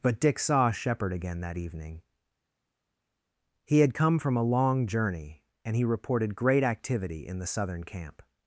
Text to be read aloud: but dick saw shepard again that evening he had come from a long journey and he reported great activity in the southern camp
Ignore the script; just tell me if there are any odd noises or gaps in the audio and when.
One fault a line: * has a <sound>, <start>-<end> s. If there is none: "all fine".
all fine